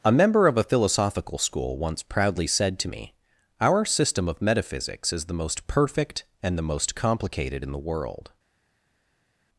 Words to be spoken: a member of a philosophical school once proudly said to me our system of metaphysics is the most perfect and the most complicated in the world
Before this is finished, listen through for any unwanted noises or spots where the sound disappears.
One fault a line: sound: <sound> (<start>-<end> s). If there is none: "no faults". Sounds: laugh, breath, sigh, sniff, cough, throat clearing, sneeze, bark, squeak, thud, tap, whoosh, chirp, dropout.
no faults